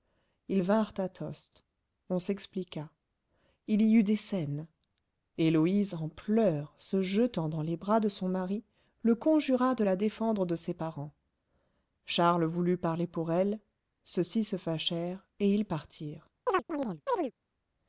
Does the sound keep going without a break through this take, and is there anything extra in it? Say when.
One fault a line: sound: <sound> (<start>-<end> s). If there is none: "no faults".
sound: chirp (16.5-17.3 s)